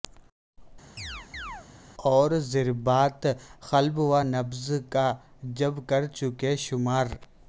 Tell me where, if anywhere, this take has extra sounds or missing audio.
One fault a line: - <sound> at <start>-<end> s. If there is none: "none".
- chirp at 1.0-1.7 s